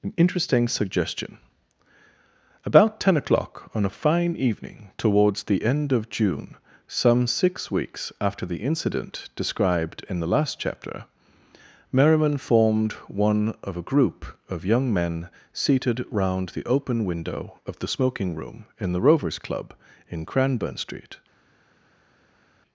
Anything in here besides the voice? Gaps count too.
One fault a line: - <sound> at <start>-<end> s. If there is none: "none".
none